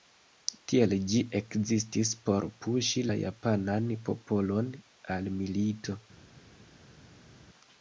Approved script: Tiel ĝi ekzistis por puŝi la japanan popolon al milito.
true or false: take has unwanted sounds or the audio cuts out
false